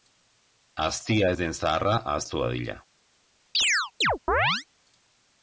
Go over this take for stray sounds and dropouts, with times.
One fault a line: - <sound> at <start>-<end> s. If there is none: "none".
- chirp at 3.5-4.7 s